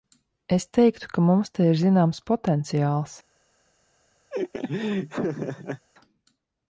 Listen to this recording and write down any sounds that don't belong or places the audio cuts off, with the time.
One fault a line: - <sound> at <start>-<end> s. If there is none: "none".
- laugh at 4.3-5.9 s